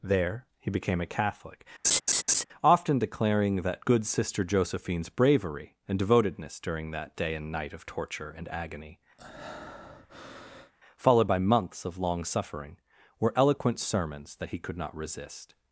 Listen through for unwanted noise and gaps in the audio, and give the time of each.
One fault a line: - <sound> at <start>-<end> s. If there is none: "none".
- laugh at 1.8-2.4 s
- breath at 9.2-10.7 s